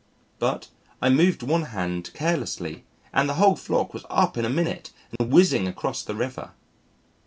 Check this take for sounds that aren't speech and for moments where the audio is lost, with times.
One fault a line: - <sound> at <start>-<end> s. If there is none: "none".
- dropout at 5.2-5.2 s